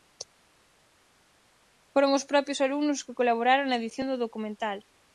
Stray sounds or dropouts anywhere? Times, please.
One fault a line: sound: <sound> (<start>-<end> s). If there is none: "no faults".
no faults